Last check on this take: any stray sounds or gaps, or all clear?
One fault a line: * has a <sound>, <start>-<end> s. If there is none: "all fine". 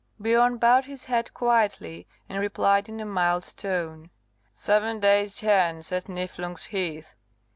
all fine